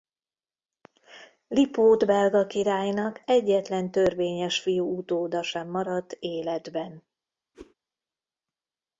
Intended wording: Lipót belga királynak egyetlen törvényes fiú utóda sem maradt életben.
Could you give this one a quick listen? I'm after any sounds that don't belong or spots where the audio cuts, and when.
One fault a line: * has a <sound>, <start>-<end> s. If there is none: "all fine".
* has a whoosh, 7.5-7.7 s